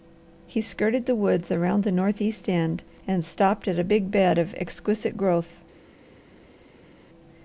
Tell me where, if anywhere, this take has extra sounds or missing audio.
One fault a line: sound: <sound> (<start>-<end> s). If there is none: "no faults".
no faults